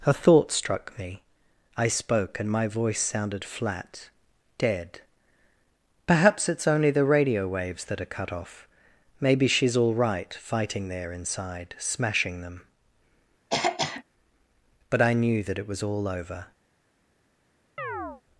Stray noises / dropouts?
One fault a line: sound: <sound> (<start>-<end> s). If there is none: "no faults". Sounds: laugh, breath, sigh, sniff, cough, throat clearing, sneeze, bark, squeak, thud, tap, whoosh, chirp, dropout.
sound: throat clearing (13.5-14.0 s)
sound: chirp (17.8-18.2 s)